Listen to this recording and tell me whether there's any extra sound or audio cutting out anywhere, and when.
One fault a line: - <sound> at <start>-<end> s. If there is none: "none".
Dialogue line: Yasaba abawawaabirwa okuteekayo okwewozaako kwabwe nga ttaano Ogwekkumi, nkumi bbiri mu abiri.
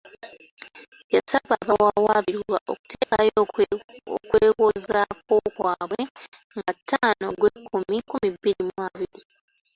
- dropout at 3.0-3.1 s